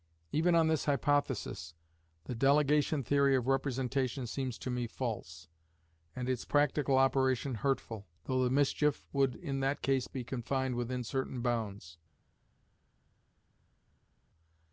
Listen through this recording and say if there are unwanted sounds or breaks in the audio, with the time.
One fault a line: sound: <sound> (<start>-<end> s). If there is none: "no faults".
no faults